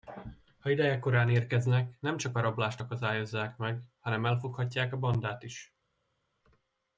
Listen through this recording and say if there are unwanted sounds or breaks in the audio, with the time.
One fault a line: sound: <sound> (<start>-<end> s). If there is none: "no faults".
no faults